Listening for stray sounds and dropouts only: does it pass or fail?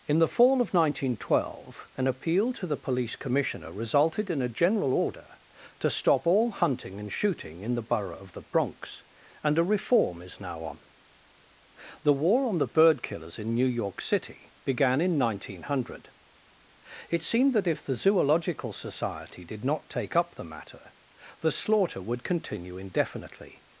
pass